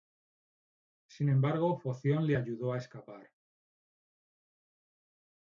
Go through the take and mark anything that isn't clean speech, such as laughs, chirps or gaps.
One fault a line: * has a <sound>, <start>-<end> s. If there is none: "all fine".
all fine